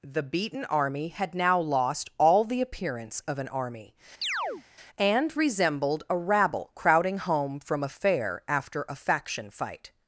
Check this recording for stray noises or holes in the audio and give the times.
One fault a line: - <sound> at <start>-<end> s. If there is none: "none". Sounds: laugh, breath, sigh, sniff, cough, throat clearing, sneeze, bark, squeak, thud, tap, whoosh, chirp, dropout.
- chirp at 4.2-4.6 s